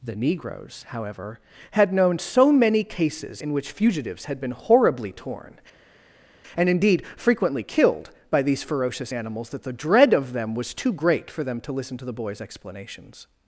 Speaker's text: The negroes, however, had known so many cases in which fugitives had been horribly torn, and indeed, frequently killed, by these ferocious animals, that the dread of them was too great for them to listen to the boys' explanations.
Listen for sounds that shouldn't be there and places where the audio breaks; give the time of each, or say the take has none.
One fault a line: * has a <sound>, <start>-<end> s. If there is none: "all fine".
all fine